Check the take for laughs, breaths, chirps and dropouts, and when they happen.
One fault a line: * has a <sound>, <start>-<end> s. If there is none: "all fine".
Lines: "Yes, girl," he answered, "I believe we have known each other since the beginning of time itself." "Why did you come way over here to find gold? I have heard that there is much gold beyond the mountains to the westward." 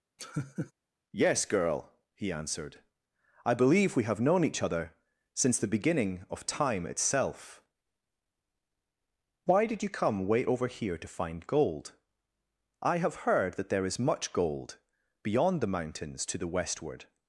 * has a laugh, 0.2-0.7 s